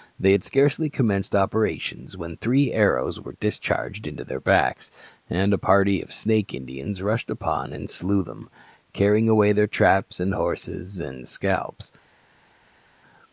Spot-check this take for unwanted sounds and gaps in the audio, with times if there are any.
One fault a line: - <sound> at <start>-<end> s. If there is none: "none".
none